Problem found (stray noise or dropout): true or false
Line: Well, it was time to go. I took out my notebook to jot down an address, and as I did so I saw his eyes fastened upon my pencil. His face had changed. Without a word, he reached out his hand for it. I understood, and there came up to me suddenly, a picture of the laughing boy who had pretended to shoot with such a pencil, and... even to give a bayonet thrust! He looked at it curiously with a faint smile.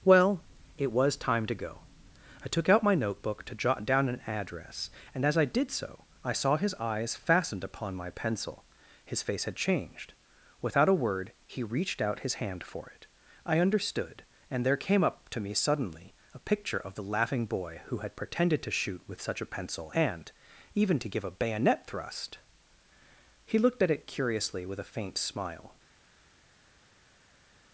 false